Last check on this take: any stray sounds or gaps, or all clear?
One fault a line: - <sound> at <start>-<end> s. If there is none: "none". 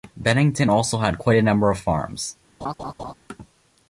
- laugh at 2.6-3.1 s